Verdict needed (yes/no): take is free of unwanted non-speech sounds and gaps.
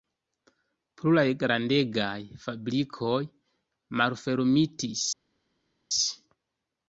yes